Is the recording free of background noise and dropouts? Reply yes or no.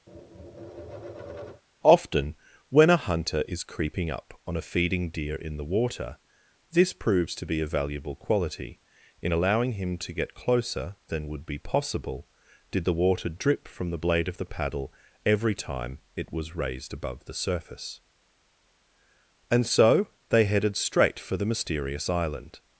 no